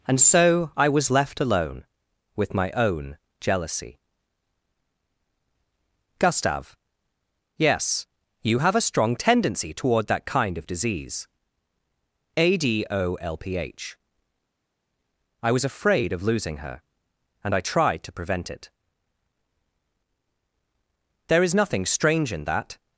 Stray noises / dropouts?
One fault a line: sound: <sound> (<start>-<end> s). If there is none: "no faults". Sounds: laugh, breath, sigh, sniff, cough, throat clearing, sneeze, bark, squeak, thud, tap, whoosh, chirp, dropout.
no faults